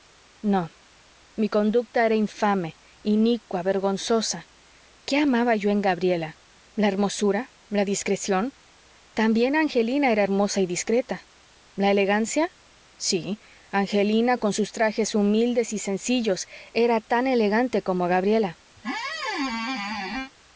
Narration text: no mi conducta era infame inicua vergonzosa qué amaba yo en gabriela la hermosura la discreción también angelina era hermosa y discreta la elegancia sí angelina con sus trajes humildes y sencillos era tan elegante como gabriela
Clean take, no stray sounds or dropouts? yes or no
no